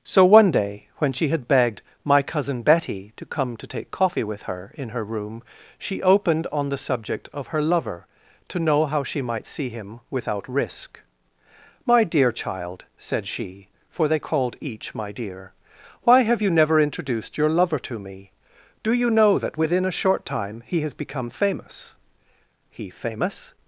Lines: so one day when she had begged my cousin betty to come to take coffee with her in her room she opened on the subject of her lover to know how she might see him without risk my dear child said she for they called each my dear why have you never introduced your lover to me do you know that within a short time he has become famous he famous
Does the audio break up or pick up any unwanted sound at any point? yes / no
no